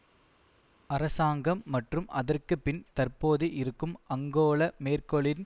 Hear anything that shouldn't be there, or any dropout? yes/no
no